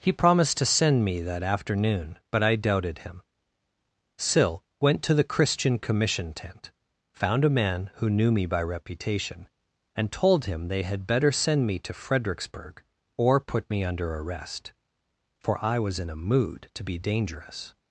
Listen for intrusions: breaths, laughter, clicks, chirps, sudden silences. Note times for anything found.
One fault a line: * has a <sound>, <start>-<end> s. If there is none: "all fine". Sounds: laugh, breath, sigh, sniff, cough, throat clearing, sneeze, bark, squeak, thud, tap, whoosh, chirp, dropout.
all fine